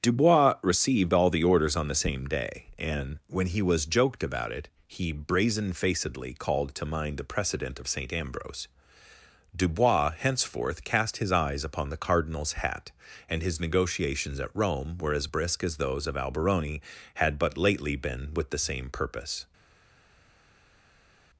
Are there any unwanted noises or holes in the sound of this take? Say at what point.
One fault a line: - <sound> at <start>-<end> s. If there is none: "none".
none